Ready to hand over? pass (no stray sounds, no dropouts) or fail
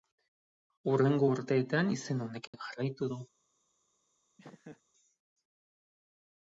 fail